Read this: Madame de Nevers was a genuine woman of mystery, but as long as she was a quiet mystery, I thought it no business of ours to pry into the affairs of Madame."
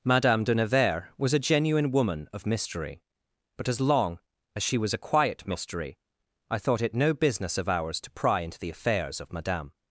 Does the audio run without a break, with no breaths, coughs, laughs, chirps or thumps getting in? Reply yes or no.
yes